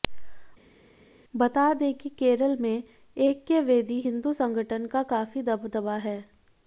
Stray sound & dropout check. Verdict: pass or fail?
pass